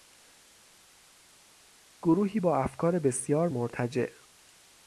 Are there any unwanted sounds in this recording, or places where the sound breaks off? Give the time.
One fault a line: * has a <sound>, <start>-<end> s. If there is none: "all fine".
all fine